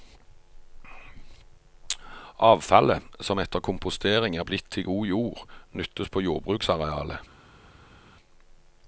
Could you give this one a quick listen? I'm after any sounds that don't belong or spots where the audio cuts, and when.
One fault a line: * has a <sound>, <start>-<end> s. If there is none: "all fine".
all fine